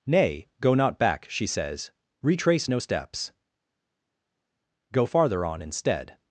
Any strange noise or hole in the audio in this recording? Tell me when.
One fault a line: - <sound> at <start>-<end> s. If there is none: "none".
none